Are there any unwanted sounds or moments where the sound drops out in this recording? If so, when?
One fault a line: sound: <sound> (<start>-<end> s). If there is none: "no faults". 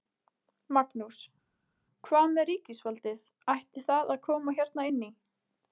no faults